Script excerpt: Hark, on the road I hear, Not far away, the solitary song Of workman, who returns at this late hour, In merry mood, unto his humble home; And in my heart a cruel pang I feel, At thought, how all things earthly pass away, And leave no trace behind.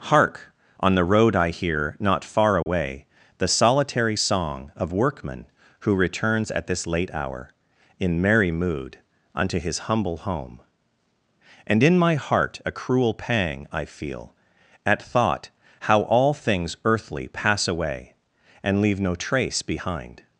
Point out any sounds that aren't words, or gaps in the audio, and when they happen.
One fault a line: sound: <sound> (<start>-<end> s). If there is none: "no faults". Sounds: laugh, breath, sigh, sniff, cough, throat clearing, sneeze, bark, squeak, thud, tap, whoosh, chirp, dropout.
sound: dropout (2.6-2.7 s)